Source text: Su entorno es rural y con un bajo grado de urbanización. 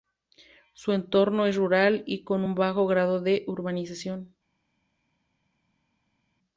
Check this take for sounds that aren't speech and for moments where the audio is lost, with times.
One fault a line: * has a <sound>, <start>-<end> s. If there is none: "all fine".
all fine